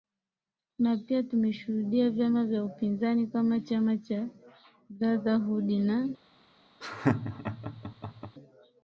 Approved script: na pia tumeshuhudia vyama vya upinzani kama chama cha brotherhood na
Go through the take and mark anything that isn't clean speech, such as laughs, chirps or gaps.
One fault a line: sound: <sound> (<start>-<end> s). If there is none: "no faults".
sound: laugh (6.8-8.4 s)